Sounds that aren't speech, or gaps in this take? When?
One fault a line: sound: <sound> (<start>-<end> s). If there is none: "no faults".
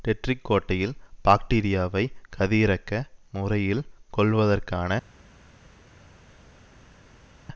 no faults